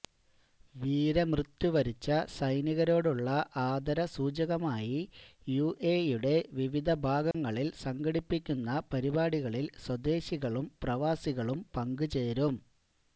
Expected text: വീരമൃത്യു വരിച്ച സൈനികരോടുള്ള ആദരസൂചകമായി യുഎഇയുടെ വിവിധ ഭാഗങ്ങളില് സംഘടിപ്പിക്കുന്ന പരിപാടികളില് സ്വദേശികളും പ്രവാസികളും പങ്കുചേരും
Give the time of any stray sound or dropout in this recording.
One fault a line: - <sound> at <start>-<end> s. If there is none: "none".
- dropout at 7.3-7.3 s